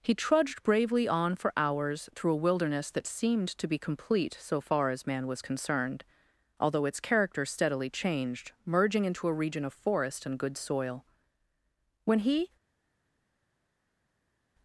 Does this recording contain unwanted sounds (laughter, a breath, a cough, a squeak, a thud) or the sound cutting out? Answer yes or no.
no